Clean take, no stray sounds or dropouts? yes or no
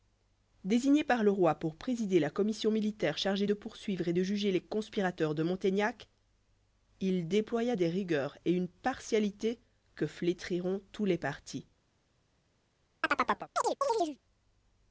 no